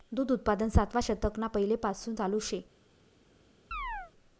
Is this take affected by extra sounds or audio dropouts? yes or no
yes